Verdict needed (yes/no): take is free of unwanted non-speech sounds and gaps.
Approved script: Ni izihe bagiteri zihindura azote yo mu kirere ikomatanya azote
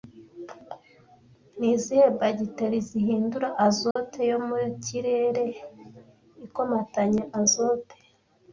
no